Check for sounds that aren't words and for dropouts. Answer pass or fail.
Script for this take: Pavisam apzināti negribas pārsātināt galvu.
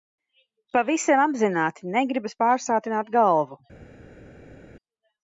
pass